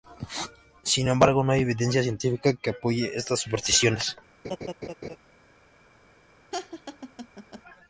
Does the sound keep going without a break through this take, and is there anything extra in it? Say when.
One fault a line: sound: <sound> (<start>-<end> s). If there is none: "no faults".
sound: laugh (4.4-5.2 s)
sound: laugh (6.5-7.6 s)